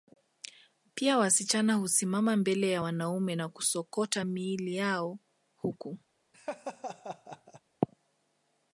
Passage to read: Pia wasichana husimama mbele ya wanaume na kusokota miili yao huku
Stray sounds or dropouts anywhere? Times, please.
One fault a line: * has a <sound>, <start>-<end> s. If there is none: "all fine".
* has a laugh, 6.3-7.6 s